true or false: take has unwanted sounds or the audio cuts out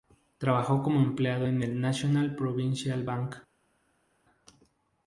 false